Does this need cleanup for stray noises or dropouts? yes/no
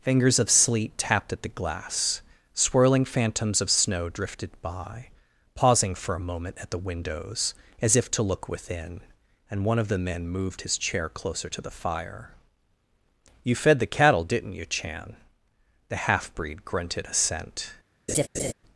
yes